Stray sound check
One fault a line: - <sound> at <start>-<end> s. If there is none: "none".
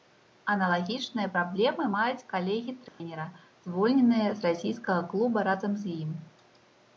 - dropout at 2.9-3.0 s